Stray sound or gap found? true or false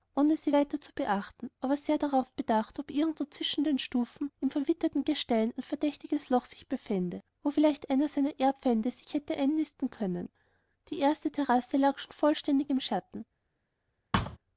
true